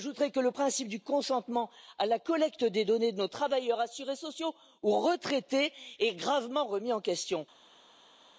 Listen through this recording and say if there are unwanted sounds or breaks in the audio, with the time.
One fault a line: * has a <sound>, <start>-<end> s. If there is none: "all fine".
all fine